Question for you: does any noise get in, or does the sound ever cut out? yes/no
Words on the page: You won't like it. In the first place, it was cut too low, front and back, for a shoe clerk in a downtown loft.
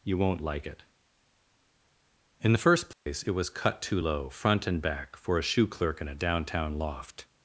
yes